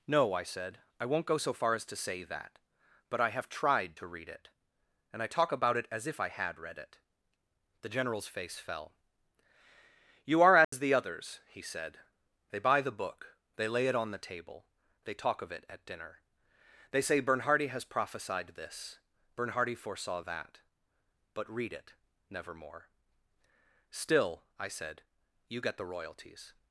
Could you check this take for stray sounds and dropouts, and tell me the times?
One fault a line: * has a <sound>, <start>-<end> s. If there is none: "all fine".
* has a dropout, 10.6-10.7 s